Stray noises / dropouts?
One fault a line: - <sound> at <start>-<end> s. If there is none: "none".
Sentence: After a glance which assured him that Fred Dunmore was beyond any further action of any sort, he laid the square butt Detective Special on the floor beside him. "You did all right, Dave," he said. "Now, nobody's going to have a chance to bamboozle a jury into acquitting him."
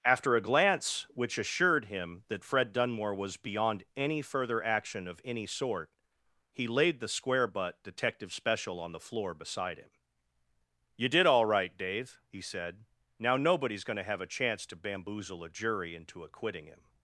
none